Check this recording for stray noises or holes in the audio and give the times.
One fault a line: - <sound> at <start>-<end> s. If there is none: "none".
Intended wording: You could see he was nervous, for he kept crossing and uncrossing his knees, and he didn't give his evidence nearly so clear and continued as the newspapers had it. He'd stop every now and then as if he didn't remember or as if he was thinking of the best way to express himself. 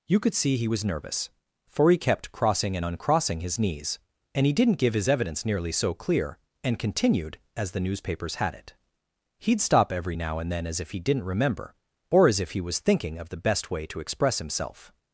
none